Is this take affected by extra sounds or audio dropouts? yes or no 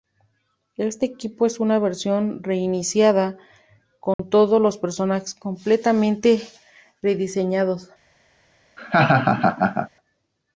yes